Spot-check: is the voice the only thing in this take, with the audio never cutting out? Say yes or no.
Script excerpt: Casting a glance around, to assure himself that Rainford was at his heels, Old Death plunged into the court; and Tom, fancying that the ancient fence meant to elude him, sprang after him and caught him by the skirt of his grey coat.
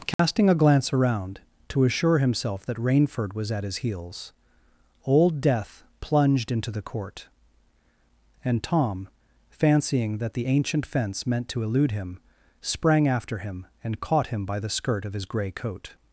no